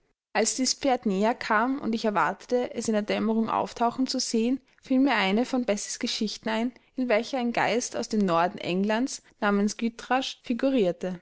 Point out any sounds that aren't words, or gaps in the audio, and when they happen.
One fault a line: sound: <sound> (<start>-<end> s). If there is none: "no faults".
no faults